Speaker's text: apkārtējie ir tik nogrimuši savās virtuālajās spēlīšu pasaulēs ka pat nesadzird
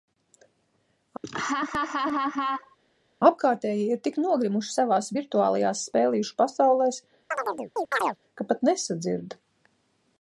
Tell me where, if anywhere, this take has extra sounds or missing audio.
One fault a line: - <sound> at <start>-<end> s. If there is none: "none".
- laugh at 1.2-2.8 s
- chirp at 7.3-8.2 s